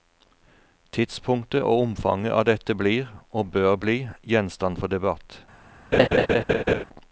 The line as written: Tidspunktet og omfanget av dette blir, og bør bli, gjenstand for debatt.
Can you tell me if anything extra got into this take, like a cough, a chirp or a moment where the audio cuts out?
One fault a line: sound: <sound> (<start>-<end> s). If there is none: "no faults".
sound: laugh (5.9-6.8 s)